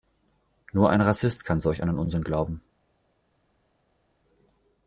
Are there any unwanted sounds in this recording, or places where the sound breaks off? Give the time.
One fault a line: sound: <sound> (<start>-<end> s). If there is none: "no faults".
no faults